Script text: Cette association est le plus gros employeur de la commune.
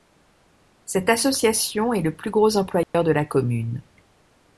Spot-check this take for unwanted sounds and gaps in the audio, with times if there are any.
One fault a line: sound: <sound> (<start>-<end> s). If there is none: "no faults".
sound: dropout (2.8-2.9 s)